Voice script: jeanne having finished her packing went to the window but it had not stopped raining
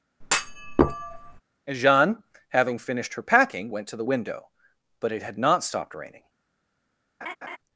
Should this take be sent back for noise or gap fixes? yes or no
yes